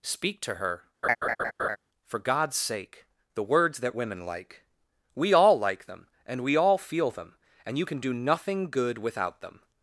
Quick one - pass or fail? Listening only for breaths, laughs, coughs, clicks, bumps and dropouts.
fail